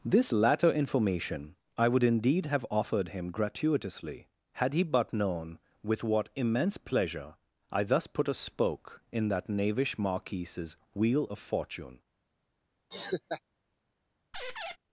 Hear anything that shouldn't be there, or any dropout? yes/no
yes